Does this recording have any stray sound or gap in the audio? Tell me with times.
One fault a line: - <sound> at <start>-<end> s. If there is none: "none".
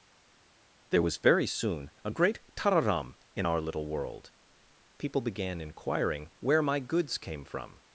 none